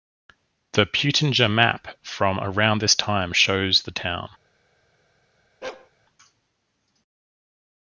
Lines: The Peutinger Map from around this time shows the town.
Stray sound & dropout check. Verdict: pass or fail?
fail